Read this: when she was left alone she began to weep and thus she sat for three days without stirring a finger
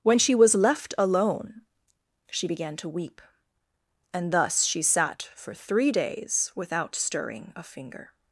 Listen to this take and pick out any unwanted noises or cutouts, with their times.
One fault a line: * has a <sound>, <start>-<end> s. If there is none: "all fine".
all fine